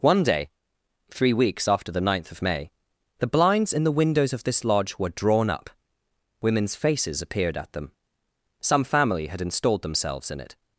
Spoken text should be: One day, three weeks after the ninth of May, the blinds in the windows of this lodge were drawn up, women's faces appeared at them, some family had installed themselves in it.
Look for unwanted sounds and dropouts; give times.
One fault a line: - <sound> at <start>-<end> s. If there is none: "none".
none